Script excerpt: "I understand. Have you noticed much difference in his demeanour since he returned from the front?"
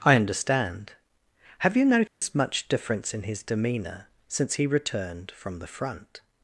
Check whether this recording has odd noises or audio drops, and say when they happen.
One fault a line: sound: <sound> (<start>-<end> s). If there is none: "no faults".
sound: dropout (2.1-2.2 s)